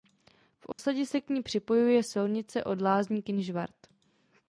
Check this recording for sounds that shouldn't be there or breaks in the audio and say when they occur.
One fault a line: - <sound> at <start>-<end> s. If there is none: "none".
- dropout at 0.7-0.8 s